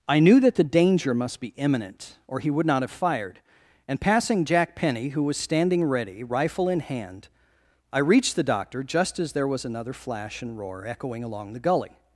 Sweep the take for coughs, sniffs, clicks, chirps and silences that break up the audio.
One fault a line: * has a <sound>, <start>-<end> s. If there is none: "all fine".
all fine